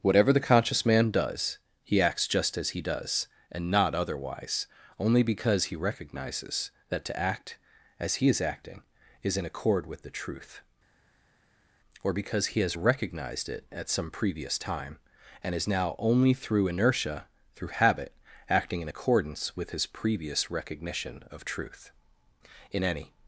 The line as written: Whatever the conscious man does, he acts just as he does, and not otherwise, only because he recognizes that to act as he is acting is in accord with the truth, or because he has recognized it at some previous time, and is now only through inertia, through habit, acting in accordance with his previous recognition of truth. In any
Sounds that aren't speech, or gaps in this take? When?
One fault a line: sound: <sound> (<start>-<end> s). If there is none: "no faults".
no faults